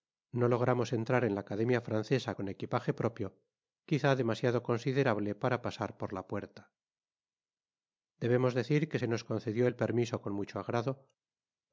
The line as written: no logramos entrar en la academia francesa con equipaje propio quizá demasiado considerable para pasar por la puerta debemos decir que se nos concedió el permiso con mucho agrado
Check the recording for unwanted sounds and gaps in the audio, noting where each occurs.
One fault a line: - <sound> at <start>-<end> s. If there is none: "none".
none